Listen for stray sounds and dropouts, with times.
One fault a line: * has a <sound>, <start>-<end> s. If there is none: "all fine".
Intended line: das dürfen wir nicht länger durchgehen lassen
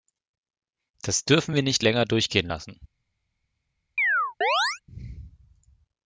* has a chirp, 4.0-4.8 s